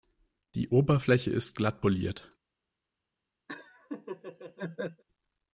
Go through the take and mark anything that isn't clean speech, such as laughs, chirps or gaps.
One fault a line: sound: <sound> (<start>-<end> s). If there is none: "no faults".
sound: laugh (3.5-5.0 s)